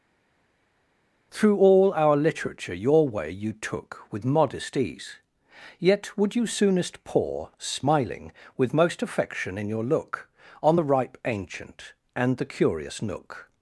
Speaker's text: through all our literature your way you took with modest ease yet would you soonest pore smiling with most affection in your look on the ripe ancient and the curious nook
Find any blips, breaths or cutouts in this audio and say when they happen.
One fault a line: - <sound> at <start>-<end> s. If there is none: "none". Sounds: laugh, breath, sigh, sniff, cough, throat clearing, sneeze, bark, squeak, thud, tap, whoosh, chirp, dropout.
none